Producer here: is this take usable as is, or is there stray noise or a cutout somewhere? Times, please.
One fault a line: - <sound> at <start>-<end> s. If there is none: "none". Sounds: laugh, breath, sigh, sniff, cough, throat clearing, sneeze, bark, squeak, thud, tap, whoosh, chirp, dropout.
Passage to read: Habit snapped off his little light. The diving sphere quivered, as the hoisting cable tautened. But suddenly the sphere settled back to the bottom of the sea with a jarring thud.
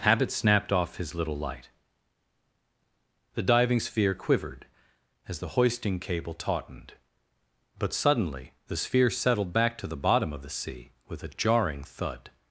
none